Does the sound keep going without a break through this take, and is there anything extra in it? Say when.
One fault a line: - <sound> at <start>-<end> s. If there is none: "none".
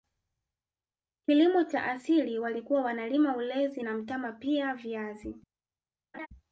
- laugh at 6.1-6.3 s